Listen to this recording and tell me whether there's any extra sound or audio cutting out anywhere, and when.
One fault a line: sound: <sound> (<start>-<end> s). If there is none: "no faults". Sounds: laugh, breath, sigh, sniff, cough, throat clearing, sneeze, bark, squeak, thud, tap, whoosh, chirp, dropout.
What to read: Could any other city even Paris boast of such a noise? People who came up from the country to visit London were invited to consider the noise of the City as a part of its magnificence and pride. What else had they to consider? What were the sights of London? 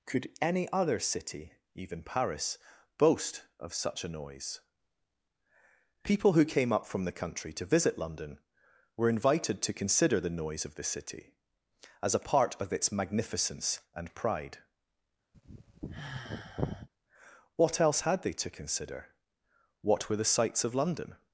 sound: sigh (15.3-16.9 s)